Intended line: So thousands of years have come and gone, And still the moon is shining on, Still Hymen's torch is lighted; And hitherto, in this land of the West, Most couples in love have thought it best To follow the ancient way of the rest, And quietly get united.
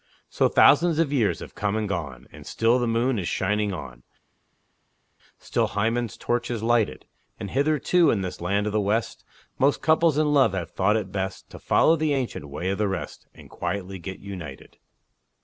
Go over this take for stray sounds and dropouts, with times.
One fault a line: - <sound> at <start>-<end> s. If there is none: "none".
none